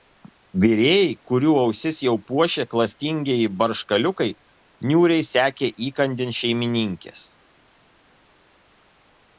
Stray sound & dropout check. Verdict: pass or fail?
pass